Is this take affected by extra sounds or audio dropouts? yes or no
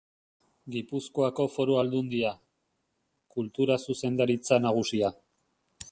no